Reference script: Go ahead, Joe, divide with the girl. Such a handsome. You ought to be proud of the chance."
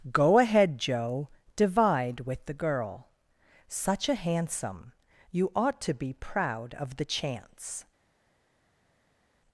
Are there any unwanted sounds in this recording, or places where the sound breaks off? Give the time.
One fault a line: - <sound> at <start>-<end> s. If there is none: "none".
none